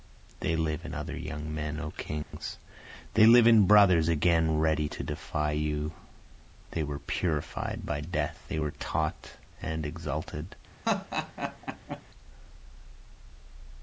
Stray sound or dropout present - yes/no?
yes